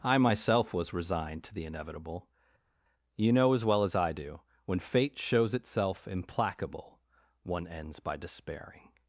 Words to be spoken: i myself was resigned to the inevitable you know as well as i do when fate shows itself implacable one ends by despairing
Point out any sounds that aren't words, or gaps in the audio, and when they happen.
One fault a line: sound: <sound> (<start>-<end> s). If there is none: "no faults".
no faults